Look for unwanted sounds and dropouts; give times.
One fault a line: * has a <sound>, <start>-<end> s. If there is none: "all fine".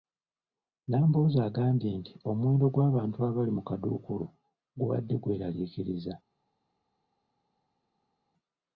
all fine